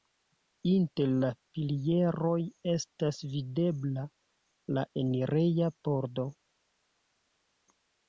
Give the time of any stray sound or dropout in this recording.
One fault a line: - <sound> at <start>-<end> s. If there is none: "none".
none